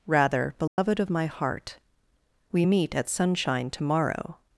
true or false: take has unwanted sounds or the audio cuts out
true